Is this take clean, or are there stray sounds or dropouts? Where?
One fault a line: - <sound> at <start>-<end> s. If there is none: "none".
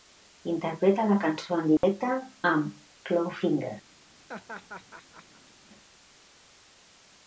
- dropout at 1.8-1.8 s
- laugh at 4.3-5.5 s